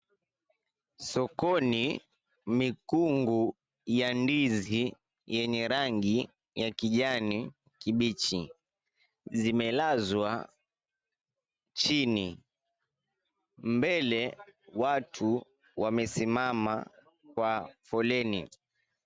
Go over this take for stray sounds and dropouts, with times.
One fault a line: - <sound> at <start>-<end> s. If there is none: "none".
none